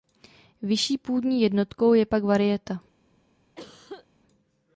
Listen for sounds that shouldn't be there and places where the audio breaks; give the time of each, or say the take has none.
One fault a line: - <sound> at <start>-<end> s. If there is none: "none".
- cough at 3.6-4.1 s